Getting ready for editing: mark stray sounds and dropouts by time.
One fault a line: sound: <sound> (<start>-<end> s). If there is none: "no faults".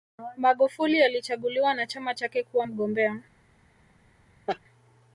sound: laugh (4.5-4.6 s)